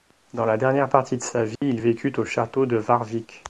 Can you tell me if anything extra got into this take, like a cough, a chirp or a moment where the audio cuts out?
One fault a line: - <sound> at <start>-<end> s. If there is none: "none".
- dropout at 1.6-1.6 s